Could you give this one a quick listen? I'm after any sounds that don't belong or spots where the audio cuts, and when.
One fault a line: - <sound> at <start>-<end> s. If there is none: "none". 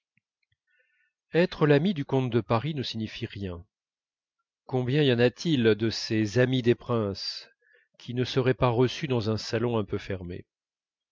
none